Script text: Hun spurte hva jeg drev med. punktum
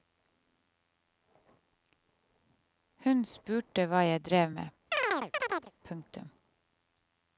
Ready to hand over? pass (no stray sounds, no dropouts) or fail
fail